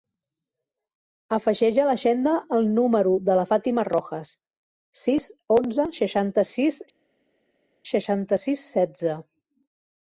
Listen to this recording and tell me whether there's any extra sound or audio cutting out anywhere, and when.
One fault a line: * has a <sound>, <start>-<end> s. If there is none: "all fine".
all fine